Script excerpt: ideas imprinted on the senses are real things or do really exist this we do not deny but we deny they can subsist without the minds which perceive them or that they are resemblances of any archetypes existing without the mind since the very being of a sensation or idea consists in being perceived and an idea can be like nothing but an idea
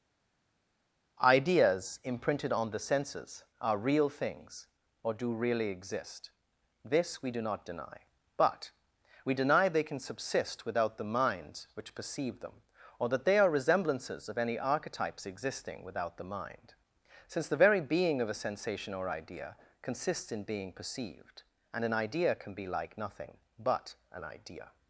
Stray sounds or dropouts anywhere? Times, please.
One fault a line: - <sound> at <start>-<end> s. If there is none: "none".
none